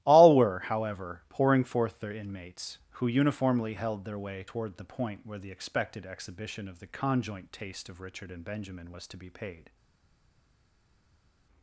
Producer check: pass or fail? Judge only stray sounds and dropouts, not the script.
pass